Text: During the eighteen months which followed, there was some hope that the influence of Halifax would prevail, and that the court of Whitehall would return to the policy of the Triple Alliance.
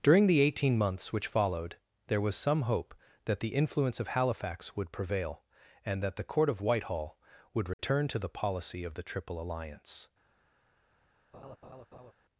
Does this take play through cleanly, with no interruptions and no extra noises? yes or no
no